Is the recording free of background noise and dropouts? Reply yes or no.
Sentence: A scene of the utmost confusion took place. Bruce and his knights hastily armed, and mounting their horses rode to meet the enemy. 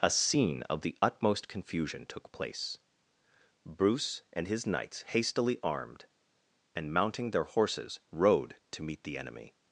yes